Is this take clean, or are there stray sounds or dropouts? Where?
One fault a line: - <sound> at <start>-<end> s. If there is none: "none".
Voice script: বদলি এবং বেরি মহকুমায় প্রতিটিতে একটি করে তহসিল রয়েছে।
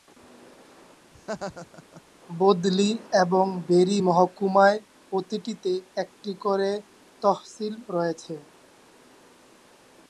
- laugh at 1.1-2.0 s